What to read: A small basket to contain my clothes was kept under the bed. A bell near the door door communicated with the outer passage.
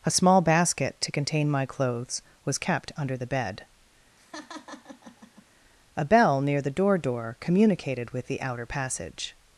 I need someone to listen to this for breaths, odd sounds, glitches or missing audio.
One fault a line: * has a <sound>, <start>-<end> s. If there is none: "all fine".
* has a laugh, 4.2-5.5 s